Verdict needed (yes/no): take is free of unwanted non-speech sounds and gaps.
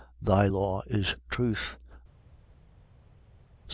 yes